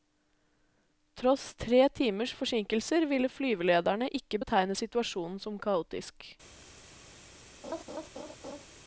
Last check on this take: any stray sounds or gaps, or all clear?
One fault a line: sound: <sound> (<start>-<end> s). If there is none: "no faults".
sound: laugh (7.6-8.7 s)